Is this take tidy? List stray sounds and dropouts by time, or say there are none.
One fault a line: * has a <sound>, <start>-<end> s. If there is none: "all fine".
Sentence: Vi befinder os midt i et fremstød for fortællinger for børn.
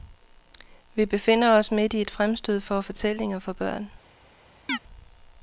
* has a chirp, 4.7-4.8 s